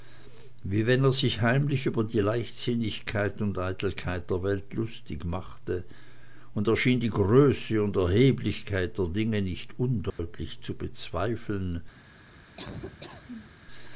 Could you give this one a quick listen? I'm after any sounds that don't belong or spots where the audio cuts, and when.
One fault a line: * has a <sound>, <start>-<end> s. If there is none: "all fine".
* has a dropout, 10.1-10.2 s
* has a laugh, 12.6-13.6 s